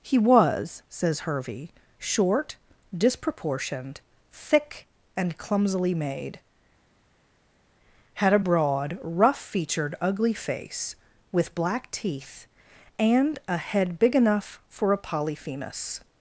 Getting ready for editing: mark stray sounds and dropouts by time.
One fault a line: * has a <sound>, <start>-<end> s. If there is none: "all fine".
all fine